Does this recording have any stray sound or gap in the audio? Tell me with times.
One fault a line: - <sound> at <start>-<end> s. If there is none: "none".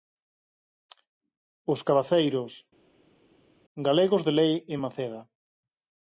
none